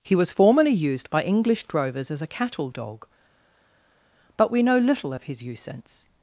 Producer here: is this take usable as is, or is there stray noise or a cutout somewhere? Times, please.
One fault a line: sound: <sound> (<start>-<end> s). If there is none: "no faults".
no faults